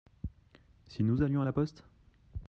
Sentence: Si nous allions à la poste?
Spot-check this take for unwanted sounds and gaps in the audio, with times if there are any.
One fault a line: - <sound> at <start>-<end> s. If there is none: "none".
none